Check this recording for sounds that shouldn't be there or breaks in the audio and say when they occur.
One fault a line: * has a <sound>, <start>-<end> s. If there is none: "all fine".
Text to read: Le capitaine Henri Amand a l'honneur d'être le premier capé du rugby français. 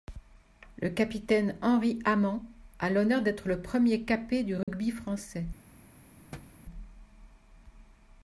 * has a dropout, 4.6-4.7 s
* has a thud, 6.3-6.6 s